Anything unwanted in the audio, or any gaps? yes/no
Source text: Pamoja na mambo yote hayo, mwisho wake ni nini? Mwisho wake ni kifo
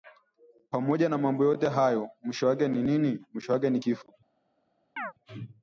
yes